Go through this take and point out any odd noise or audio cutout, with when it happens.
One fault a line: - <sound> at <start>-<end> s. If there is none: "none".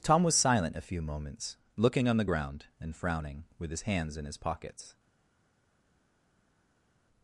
none